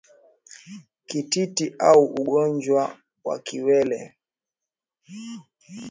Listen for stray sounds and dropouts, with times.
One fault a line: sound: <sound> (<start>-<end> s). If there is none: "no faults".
no faults